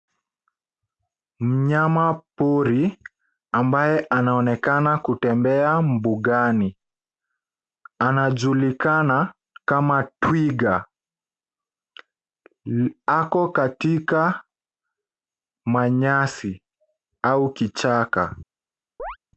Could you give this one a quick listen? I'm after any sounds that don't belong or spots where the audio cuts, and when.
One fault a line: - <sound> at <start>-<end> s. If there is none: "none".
- chirp at 19.0-19.2 s